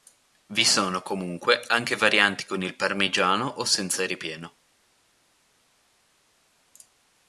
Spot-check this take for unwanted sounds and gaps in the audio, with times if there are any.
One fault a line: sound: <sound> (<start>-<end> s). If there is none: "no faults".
no faults